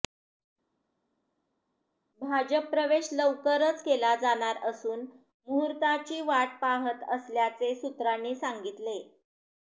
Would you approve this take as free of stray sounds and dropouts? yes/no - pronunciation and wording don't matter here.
yes